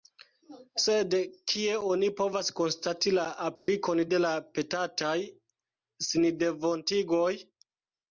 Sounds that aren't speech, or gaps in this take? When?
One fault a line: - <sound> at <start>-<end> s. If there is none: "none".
- dropout at 3.6-3.7 s